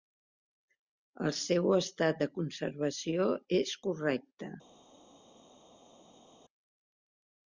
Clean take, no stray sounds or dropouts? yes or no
yes